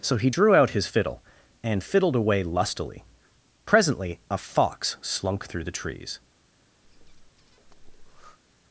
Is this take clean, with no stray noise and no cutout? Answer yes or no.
no